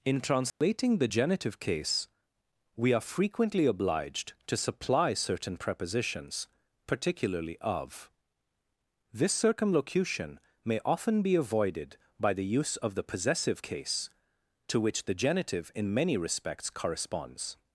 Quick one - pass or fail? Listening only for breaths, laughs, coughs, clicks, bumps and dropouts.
fail